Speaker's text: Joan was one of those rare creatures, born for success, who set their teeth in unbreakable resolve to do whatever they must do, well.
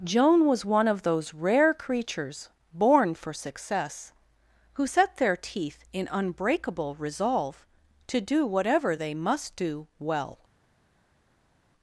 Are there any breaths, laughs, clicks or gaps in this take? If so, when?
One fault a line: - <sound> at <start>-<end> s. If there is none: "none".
none